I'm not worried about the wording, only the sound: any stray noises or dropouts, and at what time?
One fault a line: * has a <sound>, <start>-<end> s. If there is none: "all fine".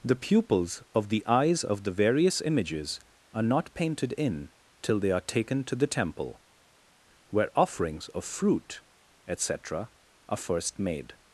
all fine